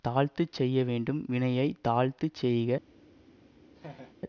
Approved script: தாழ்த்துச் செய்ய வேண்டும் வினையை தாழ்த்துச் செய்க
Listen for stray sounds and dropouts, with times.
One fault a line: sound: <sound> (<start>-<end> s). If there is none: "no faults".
sound: laugh (3.8-4.1 s)